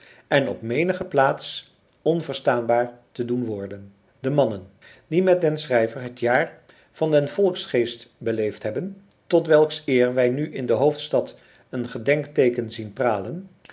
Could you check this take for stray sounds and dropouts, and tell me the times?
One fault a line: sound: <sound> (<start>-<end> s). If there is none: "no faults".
no faults